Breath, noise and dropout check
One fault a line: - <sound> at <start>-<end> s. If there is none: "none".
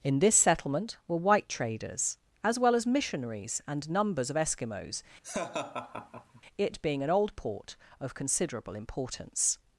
- laugh at 5.2-6.4 s